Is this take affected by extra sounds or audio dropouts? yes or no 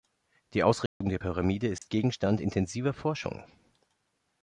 yes